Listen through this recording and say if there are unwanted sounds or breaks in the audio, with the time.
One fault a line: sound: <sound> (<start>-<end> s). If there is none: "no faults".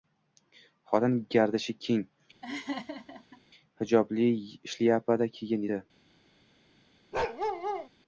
sound: laugh (2.4-3.4 s)
sound: bark (7.1-7.9 s)